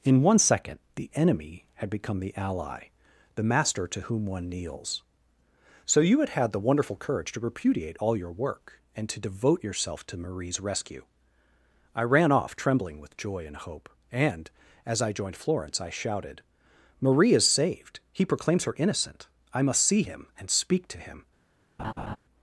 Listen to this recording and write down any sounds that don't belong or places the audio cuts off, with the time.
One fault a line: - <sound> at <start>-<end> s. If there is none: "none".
- laugh at 21.8-22.2 s